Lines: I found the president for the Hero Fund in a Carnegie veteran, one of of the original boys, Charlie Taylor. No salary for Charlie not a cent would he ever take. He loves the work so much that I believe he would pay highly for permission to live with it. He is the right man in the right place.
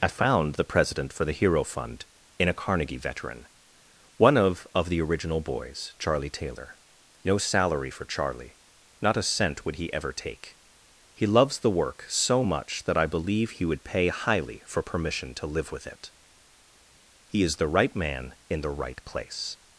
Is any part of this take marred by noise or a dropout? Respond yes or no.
no